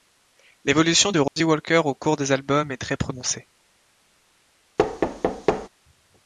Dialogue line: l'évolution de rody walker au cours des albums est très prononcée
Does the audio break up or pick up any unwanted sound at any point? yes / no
yes